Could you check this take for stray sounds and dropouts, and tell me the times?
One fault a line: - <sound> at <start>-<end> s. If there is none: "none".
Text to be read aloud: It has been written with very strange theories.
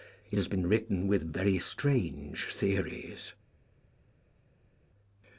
none